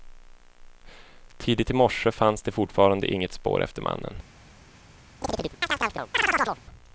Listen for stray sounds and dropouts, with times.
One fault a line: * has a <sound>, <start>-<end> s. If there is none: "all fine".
* has a chirp, 5.2-6.6 s